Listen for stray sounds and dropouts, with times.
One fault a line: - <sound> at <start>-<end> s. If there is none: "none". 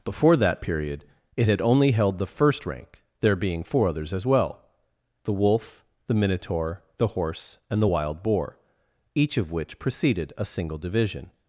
none